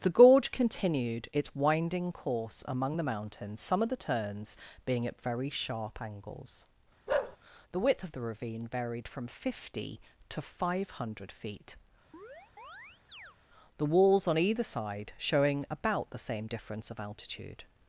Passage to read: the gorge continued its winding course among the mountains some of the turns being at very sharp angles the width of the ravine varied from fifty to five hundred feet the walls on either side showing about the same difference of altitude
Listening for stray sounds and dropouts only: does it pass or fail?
fail